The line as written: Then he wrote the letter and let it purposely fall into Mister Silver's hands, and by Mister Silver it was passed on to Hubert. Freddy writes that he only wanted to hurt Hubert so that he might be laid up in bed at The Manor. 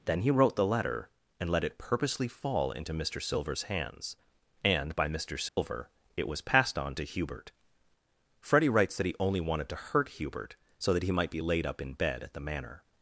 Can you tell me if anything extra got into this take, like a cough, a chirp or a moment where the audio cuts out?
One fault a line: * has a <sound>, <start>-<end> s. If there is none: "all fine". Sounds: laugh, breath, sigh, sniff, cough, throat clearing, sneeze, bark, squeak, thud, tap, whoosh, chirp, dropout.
* has a dropout, 5.5-5.6 s